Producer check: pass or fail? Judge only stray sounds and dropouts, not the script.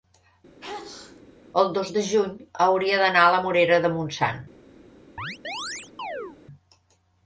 fail